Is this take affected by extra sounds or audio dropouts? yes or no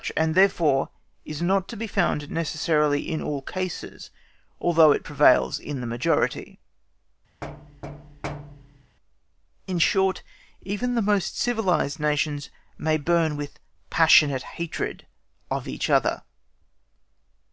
yes